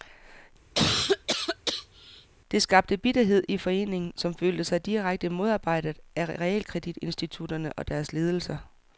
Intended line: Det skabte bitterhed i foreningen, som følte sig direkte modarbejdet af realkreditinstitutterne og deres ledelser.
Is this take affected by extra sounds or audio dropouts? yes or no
yes